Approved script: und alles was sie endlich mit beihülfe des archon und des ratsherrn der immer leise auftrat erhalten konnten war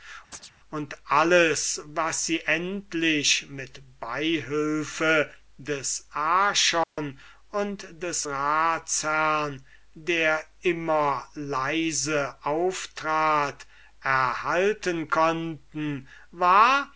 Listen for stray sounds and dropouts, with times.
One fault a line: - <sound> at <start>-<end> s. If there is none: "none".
- chirp at 0.3-0.5 s
- dropout at 6.8-7.0 s